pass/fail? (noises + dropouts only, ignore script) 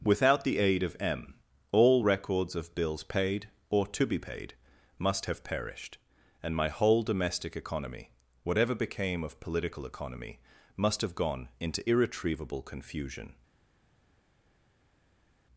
pass